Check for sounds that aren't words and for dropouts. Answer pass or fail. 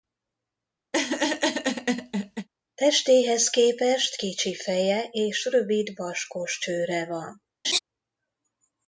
fail